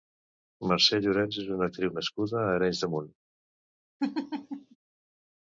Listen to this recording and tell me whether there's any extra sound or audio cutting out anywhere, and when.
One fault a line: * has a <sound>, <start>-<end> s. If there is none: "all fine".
* has a laugh, 4.0-4.8 s